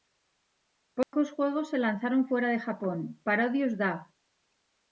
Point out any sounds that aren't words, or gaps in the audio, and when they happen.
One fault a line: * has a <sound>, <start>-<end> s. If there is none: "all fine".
* has a dropout, 1.0-1.1 s